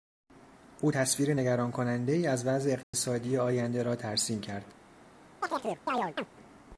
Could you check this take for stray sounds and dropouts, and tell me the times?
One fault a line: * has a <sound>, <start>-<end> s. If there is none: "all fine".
* has a dropout, 2.8-2.9 s
* has a chirp, 5.4-6.3 s